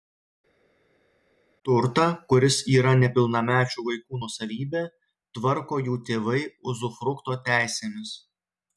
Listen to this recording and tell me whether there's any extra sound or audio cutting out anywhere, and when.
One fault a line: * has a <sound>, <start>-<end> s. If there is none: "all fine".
all fine